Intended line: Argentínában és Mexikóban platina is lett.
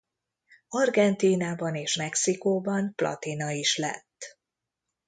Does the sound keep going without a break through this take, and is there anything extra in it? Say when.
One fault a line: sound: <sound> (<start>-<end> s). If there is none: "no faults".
no faults